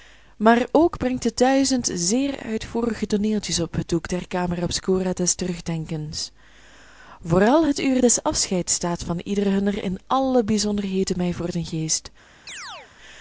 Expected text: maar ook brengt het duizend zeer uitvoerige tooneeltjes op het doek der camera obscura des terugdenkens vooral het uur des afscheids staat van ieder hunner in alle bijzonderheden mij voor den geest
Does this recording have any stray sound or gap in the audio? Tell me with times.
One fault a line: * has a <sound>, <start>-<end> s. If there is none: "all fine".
* has a chirp, 12.5-12.9 s